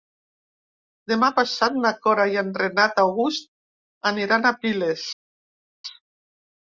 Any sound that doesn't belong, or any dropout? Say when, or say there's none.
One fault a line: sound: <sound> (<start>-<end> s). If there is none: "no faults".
no faults